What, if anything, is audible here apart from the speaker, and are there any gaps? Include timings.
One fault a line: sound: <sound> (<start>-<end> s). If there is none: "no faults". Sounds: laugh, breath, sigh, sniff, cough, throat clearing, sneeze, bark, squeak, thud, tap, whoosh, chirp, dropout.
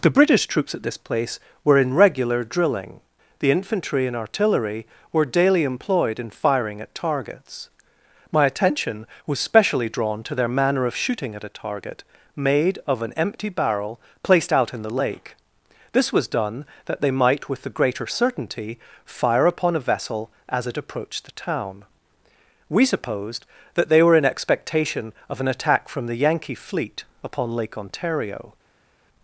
no faults